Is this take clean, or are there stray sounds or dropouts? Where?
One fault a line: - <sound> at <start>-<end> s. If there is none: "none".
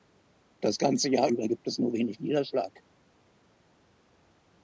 none